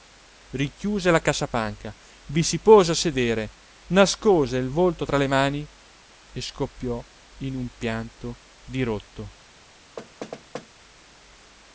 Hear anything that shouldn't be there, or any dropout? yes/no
yes